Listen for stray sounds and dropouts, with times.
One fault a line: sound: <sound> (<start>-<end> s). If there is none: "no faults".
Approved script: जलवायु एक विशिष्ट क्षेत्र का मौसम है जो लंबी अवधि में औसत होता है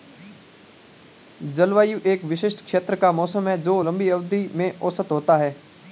no faults